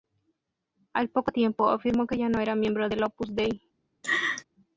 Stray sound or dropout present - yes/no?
yes